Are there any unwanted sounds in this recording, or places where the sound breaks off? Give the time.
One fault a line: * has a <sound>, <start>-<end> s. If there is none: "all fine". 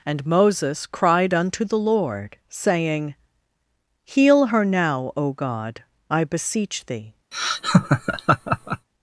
* has a laugh, 7.3-8.9 s